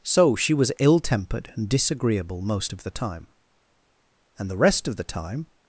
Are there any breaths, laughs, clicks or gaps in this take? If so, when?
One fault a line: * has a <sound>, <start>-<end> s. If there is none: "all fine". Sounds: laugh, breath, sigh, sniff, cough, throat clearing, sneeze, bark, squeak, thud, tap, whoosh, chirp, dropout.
all fine